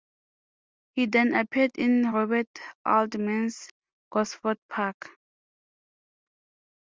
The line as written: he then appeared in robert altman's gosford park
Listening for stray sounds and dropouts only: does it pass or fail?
pass